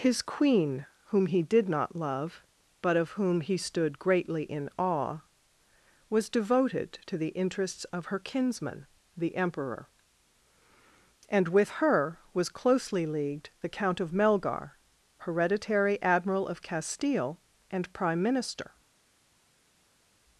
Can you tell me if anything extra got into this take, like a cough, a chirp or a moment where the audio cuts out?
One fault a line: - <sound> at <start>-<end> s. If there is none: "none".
none